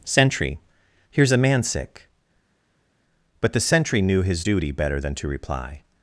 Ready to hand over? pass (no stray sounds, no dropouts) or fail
pass